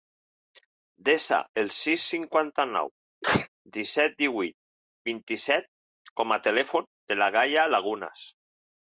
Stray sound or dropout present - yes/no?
yes